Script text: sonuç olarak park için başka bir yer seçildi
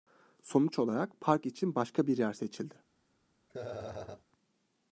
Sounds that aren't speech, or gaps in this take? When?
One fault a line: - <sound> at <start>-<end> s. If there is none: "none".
- laugh at 3.5-4.2 s